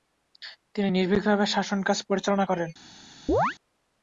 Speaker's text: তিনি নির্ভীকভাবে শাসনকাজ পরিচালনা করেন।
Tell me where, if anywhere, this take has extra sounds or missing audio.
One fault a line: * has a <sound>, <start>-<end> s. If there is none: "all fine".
* has a chirp, 3.3-3.6 s